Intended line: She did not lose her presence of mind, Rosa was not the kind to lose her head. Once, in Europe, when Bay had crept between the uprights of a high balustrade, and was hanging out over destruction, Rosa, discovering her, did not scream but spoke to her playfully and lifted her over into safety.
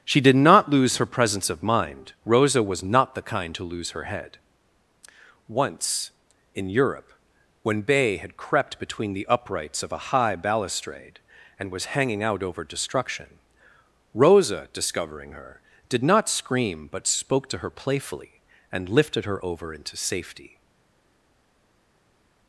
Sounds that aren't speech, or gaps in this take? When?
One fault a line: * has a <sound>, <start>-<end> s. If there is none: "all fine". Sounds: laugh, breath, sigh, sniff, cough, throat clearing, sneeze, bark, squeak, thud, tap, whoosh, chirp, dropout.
all fine